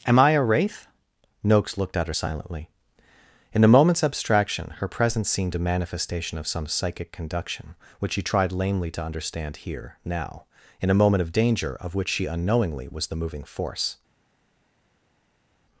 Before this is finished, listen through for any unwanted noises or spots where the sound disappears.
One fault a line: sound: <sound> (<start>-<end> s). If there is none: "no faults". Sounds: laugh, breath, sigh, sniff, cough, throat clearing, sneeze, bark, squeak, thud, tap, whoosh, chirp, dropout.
no faults